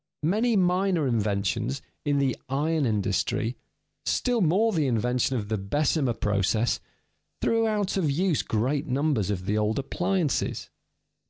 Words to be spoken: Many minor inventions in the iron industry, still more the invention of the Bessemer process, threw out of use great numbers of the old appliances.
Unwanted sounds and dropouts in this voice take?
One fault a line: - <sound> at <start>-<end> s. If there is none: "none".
none